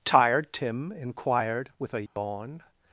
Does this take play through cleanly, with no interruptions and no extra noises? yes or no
no